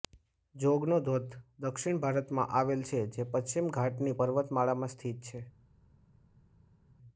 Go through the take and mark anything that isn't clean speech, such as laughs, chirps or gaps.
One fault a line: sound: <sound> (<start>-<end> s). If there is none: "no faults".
no faults